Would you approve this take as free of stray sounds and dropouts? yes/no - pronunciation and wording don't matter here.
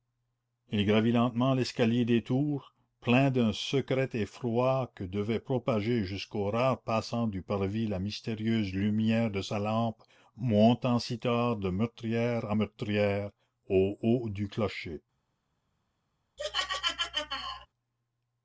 no